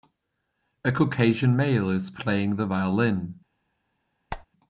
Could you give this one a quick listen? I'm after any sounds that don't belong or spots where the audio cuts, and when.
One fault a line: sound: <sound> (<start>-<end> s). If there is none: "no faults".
sound: squeak (4.3-4.5 s)